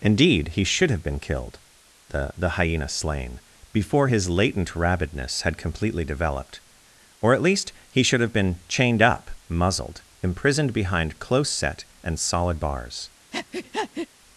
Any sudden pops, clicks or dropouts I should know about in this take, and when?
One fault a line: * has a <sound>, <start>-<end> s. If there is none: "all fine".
* has a breath, 13.3-14.1 s